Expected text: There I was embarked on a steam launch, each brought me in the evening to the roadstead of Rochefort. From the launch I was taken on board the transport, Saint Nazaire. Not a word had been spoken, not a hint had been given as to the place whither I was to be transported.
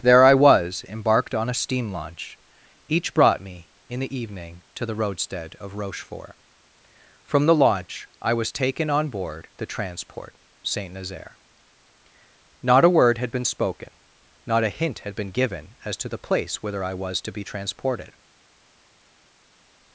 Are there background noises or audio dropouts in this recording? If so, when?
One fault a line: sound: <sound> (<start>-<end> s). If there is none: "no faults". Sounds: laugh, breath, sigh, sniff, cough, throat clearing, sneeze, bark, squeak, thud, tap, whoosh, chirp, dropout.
no faults